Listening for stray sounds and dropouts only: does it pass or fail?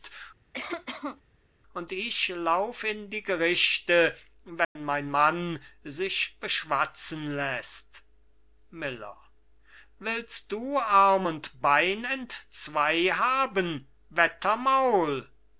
fail